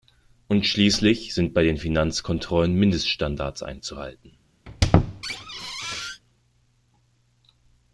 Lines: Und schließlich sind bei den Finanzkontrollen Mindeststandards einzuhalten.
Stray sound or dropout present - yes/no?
yes